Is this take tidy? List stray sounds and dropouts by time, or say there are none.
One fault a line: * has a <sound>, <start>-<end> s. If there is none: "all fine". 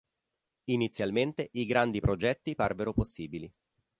all fine